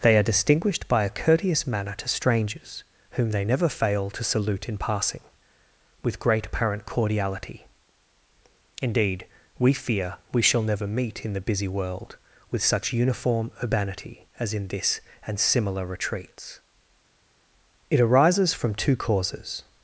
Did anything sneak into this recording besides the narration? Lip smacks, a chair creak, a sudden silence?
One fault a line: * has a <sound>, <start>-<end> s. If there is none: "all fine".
all fine